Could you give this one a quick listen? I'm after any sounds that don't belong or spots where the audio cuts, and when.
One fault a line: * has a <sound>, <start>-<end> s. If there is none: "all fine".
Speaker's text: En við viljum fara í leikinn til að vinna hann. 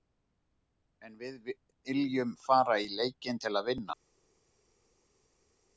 all fine